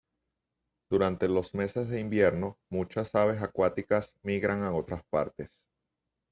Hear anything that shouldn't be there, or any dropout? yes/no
no